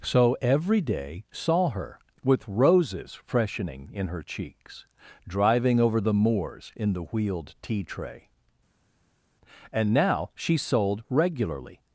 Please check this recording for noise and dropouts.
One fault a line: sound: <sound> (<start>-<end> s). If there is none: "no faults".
no faults